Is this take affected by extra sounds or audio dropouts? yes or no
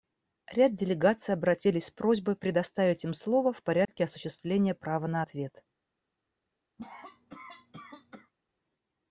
yes